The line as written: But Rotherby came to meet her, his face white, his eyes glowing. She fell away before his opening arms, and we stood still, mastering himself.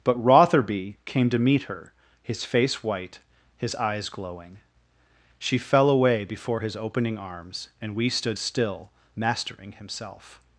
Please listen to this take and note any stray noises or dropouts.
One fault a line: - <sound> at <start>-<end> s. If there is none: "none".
none